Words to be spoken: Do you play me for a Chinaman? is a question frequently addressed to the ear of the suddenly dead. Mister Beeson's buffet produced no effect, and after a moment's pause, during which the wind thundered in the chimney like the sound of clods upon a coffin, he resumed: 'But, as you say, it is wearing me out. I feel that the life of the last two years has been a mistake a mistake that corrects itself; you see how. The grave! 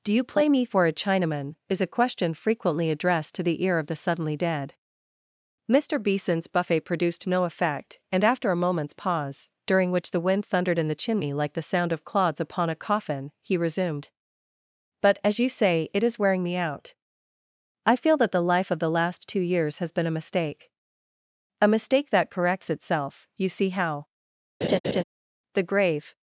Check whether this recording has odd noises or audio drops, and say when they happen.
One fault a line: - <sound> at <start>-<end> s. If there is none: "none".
- laugh at 24.6-25.0 s